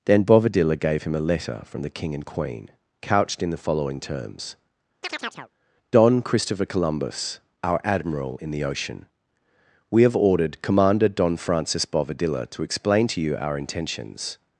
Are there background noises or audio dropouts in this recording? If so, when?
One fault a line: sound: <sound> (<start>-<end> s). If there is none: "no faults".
sound: chirp (5.0-5.5 s)